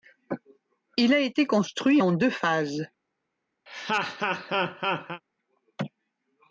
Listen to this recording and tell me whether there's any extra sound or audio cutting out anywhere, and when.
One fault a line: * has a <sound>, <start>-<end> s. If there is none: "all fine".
* has a laugh, 3.7-5.2 s